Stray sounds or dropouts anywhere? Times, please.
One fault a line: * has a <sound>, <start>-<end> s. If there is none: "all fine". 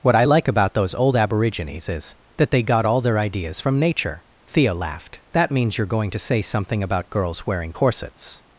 all fine